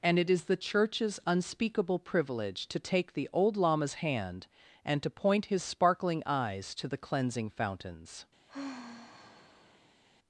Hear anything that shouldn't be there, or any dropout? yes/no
yes